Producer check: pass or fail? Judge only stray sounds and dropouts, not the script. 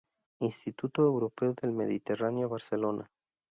pass